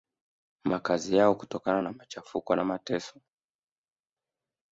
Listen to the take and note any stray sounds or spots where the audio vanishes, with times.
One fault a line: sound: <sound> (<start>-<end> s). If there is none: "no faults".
no faults